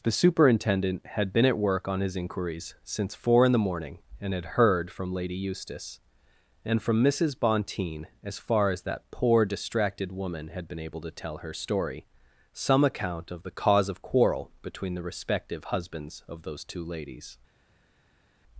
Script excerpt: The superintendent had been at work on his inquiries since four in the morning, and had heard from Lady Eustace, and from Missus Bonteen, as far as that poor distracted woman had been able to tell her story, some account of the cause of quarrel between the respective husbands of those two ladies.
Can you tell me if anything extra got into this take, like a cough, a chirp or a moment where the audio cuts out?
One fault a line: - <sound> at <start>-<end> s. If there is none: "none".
none